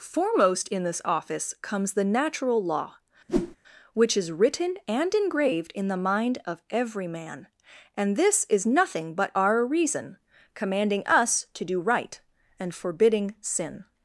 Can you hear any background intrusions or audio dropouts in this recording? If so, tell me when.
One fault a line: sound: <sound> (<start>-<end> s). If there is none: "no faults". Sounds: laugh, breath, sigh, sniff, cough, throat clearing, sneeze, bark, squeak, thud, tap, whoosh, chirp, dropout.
sound: whoosh (3.3-3.6 s)